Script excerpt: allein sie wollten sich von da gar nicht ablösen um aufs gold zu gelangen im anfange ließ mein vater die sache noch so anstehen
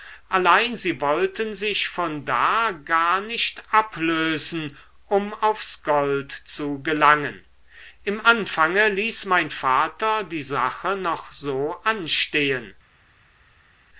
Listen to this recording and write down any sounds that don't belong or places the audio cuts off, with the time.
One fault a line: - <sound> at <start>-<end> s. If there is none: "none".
none